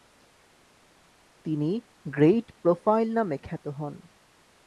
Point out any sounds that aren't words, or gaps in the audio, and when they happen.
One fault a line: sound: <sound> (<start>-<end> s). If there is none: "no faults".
no faults